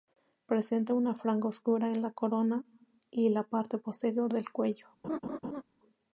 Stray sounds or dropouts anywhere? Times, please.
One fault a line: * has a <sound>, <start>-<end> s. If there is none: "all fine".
* has a laugh, 5.0-5.6 s